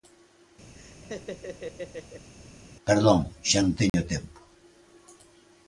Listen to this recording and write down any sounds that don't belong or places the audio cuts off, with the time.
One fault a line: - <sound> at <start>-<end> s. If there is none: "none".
- laugh at 0.7-2.3 s
- dropout at 3.9-3.9 s